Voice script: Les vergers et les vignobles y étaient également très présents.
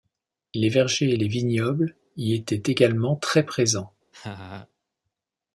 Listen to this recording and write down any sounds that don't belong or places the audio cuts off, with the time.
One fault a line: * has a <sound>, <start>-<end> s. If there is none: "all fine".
* has a laugh, 4.1-4.7 s